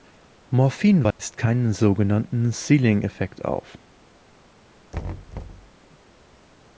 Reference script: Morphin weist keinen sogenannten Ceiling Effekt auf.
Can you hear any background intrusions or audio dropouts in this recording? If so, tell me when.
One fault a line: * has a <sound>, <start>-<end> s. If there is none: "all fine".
* has a dropout, 1.1-1.2 s
* has a thud, 4.9-5.7 s